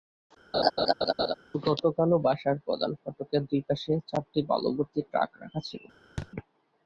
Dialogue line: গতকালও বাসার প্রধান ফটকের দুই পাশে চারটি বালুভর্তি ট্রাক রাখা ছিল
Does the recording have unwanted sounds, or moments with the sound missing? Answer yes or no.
yes